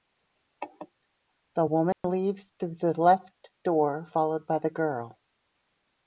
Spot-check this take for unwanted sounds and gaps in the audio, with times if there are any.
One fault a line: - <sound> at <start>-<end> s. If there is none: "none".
- dropout at 1.9-2.0 s